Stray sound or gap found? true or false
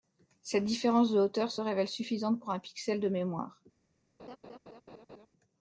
true